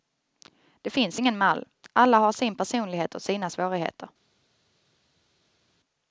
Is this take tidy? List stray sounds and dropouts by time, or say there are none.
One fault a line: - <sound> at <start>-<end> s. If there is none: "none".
none